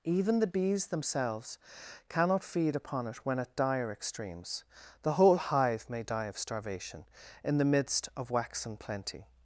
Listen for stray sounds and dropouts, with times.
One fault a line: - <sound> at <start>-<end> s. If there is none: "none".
none